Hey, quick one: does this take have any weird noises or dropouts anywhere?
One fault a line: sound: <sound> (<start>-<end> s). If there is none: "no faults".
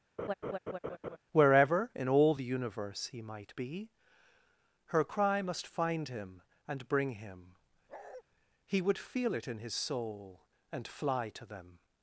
sound: laugh (0.2-1.2 s)
sound: bark (7.9-8.2 s)